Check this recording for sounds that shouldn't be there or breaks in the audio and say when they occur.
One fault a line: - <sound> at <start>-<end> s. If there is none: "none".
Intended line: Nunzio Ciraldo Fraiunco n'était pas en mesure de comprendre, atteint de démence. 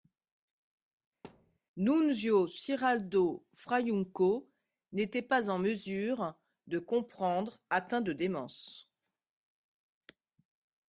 - thud at 1.2-1.6 s